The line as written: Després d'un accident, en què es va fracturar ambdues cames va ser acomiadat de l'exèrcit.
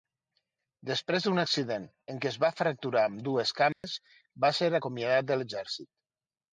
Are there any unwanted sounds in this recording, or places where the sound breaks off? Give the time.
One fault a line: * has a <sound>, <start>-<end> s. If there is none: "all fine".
* has a dropout, 3.7-3.8 s